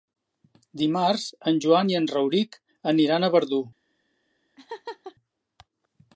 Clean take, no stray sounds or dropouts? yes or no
no